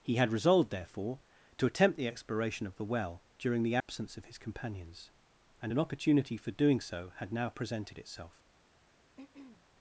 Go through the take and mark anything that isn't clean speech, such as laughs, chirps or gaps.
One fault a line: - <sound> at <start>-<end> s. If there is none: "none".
- dropout at 3.8-3.9 s
- throat clearing at 9.2-9.6 s